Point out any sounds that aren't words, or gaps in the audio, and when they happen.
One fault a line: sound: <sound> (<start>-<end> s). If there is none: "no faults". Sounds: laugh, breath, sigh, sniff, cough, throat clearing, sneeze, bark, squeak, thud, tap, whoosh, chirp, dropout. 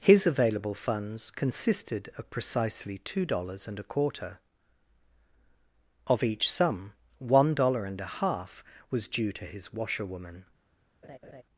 sound: laugh (11.0-11.4 s)